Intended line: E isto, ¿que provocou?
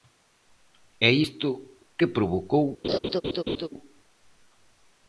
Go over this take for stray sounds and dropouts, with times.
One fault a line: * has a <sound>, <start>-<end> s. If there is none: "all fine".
* has a laugh, 2.8-3.7 s